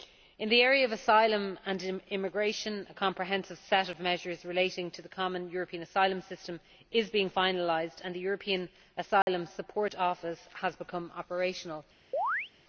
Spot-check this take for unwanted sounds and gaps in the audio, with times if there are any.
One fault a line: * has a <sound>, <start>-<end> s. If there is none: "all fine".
* has a dropout, 9.2-9.3 s
* has a chirp, 12.1-12.5 s